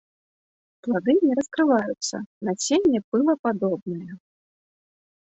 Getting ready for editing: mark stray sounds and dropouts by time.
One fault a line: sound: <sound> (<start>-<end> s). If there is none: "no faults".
no faults